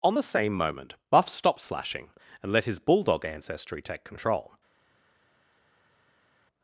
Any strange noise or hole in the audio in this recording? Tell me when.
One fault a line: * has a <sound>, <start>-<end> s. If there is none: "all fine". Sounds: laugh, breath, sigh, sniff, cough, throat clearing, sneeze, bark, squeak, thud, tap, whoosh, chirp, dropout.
all fine